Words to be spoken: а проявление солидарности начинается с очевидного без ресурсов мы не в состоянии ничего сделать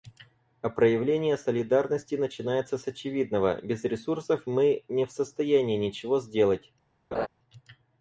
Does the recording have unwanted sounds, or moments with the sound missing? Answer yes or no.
yes